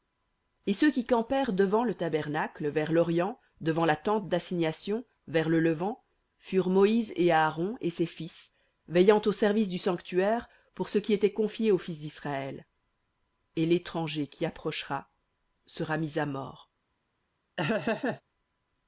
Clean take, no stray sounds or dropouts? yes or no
no